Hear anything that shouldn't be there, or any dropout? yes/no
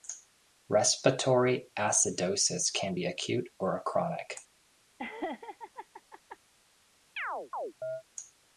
yes